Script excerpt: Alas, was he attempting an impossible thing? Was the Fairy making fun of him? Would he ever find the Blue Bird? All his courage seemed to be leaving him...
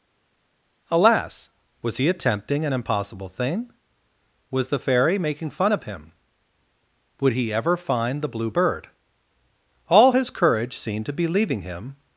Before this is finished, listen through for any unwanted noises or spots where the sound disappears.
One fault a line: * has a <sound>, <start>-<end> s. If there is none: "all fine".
all fine